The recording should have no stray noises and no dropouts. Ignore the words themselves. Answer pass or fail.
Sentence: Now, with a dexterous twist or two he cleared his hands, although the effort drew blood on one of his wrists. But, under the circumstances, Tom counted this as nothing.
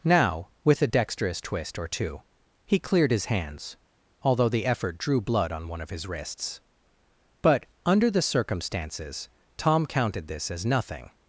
pass